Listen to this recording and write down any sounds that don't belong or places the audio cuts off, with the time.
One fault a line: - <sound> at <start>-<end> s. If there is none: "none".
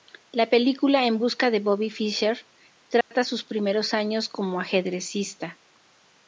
- dropout at 3.0-3.1 s